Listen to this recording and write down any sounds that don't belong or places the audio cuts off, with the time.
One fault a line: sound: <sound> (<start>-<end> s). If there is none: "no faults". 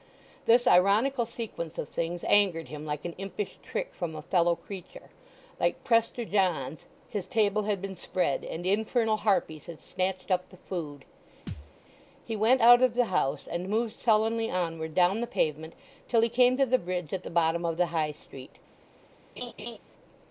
sound: thud (11.5-11.7 s)
sound: laugh (19.4-19.8 s)